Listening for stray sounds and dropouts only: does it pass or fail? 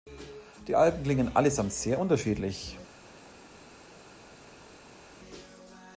pass